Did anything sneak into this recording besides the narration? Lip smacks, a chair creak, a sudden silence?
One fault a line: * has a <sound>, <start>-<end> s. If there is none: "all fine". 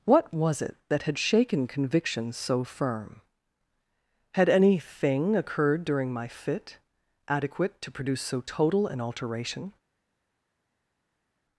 all fine